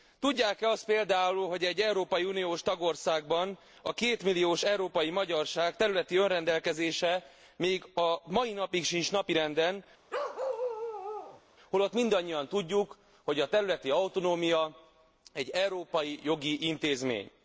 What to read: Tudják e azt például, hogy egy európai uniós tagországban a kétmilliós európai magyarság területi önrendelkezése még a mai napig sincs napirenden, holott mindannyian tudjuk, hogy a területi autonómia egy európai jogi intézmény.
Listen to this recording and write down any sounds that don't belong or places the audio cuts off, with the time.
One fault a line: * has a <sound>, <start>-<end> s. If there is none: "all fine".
* has a bark, 10.1-11.4 s